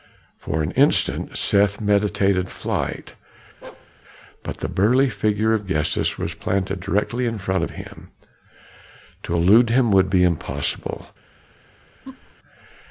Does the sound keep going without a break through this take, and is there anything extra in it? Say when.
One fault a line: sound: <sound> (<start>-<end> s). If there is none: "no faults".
sound: bark (3.6-3.9 s)
sound: laugh (12.0-12.3 s)